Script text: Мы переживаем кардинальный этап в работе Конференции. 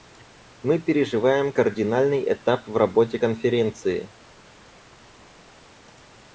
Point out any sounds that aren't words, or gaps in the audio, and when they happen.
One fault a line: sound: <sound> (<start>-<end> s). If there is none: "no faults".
no faults